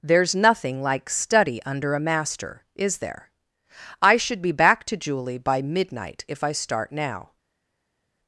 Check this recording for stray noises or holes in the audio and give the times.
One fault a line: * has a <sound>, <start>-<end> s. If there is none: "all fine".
all fine